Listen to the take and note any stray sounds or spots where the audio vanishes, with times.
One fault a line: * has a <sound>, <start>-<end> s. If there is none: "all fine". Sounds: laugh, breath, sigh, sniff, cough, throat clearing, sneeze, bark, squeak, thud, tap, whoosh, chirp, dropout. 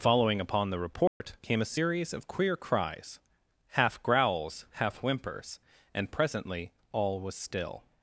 * has a dropout, 1.1-1.2 s